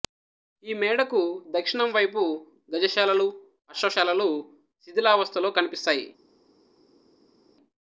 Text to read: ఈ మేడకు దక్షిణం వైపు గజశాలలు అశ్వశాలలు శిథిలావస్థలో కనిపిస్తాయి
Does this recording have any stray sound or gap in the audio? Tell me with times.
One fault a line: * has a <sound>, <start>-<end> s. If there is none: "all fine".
all fine